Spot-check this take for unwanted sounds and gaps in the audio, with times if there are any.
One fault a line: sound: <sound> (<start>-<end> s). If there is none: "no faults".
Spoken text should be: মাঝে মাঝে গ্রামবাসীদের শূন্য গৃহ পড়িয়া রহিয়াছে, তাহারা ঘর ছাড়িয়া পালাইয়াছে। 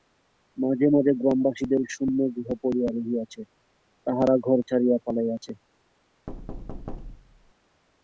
sound: thud (6.3-7.5 s)